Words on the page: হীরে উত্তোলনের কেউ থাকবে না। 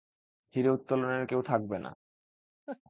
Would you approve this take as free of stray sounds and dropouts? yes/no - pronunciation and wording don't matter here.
no